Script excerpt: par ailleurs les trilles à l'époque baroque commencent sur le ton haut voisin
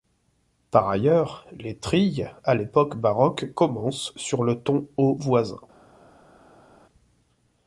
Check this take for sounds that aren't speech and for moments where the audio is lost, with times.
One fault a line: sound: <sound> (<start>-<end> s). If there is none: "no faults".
no faults